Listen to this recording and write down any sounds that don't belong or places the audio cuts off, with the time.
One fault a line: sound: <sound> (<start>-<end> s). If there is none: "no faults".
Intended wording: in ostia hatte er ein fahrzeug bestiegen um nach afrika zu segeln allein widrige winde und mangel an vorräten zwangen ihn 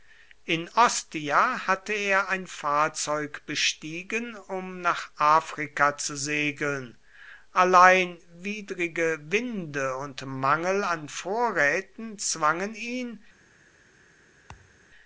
sound: thud (14.5-14.8 s)